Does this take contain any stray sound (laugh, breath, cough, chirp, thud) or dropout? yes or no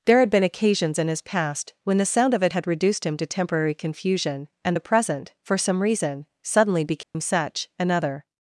yes